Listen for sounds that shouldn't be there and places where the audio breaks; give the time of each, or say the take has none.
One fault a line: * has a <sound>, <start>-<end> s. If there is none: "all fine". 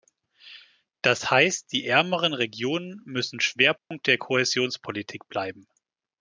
* has a dropout, 3.8-3.9 s